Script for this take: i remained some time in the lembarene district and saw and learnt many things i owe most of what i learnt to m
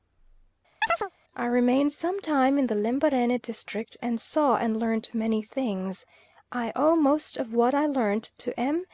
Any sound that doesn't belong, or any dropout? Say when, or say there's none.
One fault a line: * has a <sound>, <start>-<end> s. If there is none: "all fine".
* has a chirp, 0.8-1.1 s